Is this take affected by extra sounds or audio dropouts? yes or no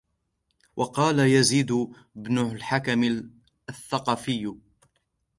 no